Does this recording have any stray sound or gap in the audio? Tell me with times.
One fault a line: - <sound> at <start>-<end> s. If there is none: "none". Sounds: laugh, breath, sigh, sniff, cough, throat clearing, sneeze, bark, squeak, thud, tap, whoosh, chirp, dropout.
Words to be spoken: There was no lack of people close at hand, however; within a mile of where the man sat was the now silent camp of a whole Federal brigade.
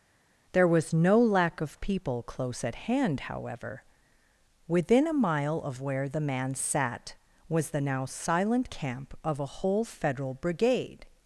none